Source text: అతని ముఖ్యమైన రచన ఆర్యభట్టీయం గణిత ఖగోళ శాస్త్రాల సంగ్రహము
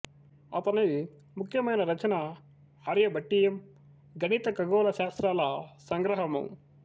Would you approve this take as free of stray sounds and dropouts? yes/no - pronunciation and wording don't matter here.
yes